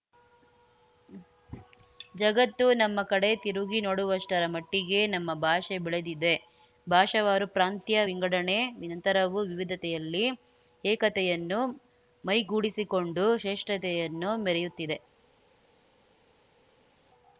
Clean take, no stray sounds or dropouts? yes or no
yes